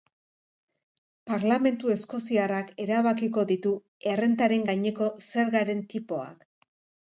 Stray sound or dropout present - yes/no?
no